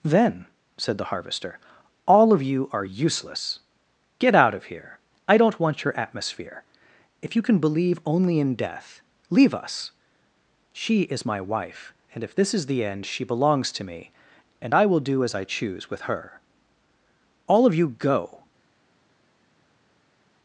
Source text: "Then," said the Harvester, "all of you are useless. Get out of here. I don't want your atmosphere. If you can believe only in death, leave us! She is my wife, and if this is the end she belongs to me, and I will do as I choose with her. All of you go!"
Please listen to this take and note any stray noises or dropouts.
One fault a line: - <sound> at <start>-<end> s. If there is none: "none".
none